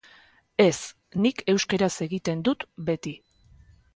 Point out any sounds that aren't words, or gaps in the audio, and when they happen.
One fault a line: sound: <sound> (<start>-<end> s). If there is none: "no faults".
no faults